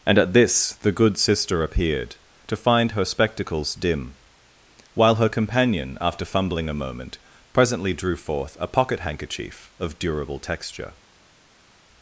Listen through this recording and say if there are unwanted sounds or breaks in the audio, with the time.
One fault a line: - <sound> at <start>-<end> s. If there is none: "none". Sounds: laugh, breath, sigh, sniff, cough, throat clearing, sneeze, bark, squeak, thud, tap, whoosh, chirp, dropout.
none